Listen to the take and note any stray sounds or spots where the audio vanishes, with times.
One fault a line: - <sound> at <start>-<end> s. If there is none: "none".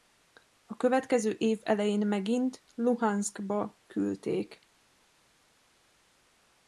none